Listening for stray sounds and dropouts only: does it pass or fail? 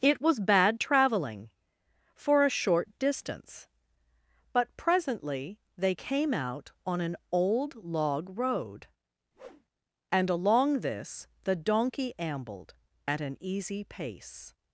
fail